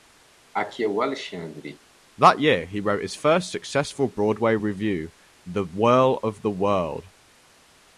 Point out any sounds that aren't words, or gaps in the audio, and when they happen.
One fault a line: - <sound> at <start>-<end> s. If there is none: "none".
- cough at 0.5-1.8 s